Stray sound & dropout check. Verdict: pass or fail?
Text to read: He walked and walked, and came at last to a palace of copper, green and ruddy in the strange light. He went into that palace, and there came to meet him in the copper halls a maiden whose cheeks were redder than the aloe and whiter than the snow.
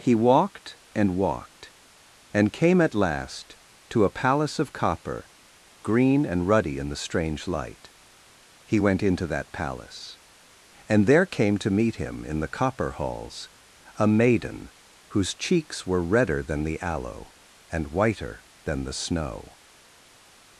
pass